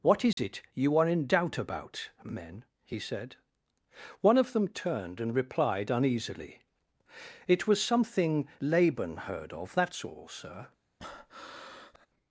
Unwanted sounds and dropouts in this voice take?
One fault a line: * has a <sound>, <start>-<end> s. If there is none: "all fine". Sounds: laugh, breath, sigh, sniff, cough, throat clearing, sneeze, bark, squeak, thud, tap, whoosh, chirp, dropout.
* has a dropout, 0.3-0.4 s
* has a breath, 11.0-12.1 s